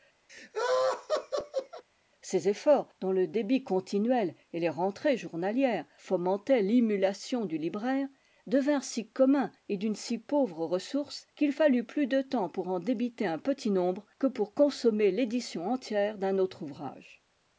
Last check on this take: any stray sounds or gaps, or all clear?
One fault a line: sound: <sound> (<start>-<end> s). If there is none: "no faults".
sound: laugh (0.3-1.8 s)